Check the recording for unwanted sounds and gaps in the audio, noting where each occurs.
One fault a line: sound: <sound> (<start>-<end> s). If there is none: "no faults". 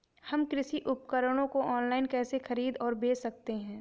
no faults